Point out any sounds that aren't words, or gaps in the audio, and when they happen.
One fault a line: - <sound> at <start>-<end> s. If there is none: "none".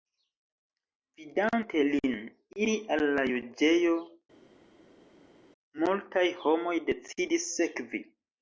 none